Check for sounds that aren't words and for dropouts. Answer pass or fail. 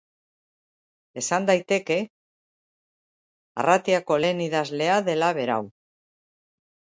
pass